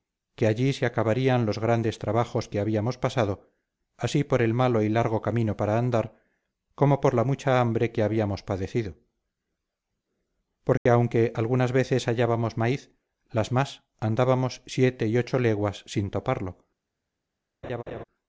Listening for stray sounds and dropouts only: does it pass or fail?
fail